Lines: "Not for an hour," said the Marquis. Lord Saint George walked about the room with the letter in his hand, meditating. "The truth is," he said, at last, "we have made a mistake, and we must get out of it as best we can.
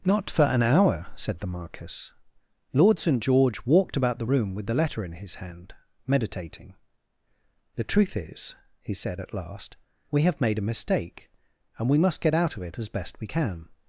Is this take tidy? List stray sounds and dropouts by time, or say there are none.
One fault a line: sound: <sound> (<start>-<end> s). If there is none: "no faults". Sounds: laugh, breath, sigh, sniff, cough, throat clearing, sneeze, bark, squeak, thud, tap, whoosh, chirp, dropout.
no faults